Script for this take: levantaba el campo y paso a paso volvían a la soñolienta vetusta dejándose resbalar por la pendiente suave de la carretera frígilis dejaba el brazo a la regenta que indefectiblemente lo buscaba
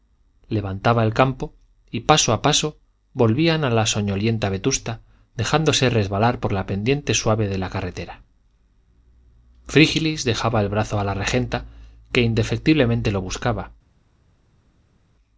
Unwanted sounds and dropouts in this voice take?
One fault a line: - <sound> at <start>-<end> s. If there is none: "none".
none